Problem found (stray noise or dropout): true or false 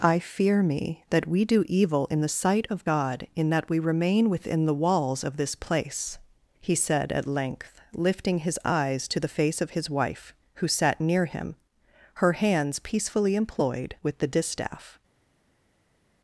false